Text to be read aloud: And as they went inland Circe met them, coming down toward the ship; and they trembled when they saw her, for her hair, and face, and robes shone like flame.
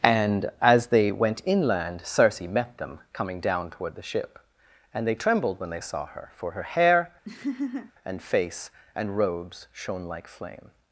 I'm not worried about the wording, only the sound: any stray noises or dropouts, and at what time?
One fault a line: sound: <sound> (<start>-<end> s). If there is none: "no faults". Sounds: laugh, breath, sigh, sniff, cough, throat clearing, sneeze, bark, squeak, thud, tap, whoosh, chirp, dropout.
sound: laugh (7.2-7.9 s)